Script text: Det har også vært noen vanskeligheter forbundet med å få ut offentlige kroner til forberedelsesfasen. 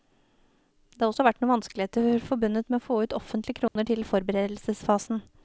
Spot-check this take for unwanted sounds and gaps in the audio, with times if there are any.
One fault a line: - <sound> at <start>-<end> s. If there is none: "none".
- dropout at 3.7-3.8 s